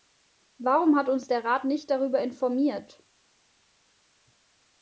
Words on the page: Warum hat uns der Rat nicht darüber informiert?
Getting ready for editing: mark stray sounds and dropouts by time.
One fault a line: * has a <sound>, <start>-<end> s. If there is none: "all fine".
all fine